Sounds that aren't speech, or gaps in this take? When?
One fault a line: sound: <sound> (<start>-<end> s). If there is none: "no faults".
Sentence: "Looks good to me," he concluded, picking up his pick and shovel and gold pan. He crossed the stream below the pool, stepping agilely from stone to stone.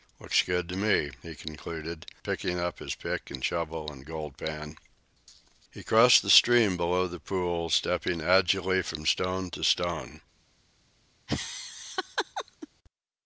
sound: laugh (11.3-12.7 s)